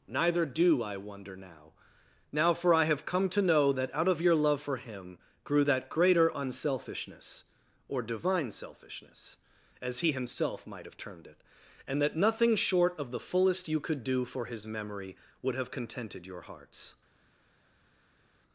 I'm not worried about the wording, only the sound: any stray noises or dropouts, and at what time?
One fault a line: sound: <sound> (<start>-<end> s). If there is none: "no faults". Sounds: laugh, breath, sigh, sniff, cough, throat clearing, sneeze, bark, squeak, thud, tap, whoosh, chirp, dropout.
no faults